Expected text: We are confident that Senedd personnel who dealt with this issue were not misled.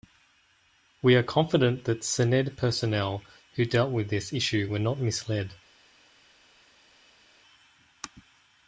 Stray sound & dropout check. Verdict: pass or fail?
pass